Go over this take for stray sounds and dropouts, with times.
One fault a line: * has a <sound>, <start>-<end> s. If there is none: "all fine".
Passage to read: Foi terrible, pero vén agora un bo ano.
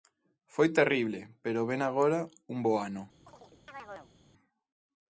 * has a chirp, 3.3-4.2 s